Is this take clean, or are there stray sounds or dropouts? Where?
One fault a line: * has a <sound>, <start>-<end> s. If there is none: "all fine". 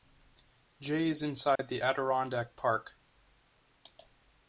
* has a dropout, 1.6-1.6 s